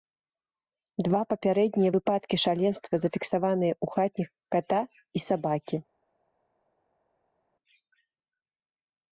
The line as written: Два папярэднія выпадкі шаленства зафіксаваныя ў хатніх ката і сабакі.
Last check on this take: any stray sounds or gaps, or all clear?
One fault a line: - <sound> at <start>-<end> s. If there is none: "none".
none